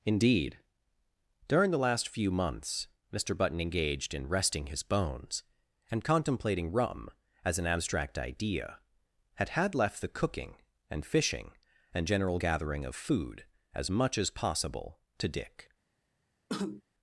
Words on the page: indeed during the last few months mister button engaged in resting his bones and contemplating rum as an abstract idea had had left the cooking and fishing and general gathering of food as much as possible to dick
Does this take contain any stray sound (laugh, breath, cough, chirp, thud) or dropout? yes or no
yes